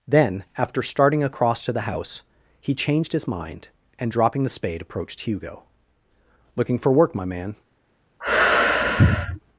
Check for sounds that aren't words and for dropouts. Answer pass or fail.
fail